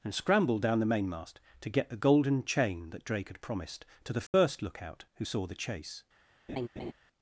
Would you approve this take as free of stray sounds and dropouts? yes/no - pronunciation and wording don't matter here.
no